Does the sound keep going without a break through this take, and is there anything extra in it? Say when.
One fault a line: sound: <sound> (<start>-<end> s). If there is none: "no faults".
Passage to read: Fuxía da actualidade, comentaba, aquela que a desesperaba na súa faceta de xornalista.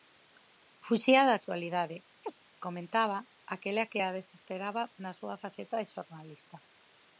sound: chirp (2.2-2.3 s)